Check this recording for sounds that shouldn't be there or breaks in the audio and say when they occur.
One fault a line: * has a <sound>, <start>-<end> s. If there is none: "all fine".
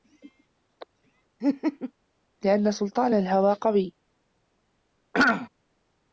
* has a laugh, 1.4-1.9 s
* has a throat clearing, 5.1-5.5 s